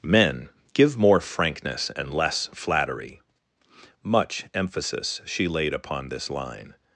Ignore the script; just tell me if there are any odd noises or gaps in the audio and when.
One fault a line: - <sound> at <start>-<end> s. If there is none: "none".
none